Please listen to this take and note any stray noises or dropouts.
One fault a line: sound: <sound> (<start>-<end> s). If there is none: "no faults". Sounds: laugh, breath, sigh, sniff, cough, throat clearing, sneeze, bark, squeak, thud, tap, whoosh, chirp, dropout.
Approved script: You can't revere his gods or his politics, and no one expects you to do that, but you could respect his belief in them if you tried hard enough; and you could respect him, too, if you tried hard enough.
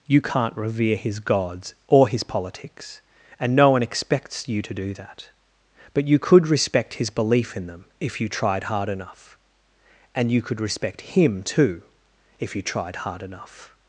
no faults